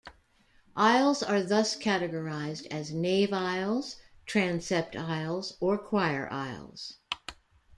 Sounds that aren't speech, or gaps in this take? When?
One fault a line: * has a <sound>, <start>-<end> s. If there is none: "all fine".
all fine